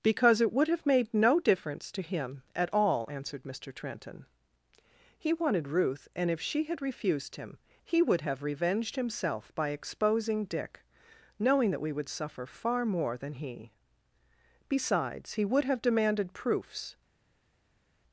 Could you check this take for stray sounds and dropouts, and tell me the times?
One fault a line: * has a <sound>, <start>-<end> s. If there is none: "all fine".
all fine